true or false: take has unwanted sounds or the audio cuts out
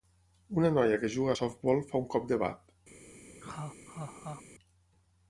true